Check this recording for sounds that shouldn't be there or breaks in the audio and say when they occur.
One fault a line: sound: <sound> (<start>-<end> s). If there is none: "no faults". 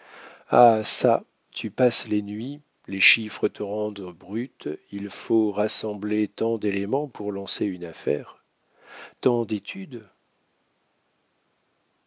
no faults